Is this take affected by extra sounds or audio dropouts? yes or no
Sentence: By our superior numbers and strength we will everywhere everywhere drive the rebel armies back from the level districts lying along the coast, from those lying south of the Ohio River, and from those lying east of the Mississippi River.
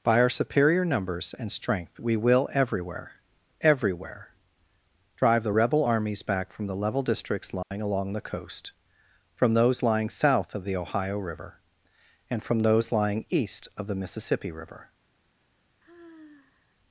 yes